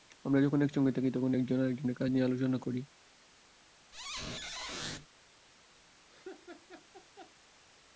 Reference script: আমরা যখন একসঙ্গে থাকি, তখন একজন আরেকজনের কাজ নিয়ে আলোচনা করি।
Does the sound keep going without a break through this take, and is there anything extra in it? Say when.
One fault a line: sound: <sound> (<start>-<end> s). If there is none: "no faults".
sound: squeak (3.9-5.1 s)
sound: laugh (6.1-7.3 s)